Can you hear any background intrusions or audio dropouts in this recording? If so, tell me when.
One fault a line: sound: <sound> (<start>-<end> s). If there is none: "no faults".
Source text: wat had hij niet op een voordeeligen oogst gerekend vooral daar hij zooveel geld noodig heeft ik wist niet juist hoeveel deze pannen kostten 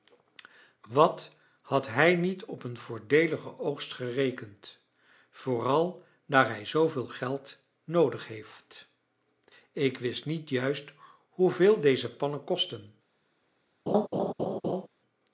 sound: laugh (13.9-14.9 s)